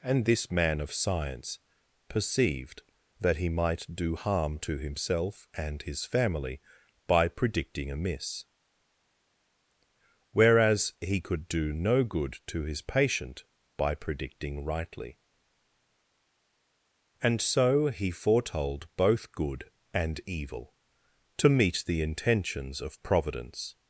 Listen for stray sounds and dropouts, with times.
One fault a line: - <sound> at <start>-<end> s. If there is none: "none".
none